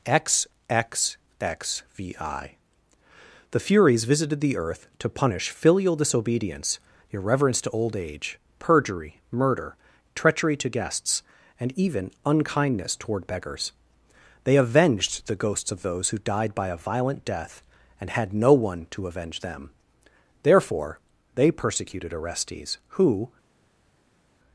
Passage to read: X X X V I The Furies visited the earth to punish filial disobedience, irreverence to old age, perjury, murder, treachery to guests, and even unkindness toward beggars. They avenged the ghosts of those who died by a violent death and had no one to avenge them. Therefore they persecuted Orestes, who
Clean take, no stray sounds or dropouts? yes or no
yes